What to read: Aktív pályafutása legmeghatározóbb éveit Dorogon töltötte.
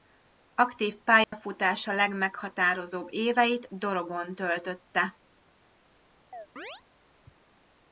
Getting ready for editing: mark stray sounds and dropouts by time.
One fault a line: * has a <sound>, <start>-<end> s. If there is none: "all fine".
* has a dropout, 1.2-1.3 s
* has a chirp, 6.3-6.8 s